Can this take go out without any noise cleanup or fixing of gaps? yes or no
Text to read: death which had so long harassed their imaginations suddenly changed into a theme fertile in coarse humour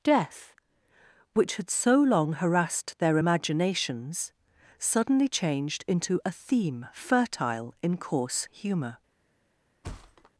no